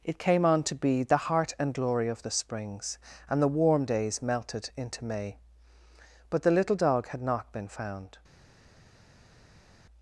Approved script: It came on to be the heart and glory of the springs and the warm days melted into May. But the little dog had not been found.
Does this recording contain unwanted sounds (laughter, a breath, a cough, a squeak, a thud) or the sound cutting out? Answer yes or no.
no